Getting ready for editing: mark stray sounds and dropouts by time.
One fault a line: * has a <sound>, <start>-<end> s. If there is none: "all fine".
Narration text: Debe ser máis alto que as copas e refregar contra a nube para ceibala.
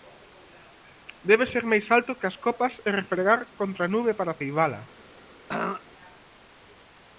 * has a throat clearing, 5.5-5.8 s